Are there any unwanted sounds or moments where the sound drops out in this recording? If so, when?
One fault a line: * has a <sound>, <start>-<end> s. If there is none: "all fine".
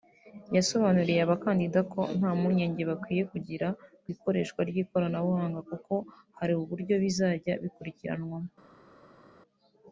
all fine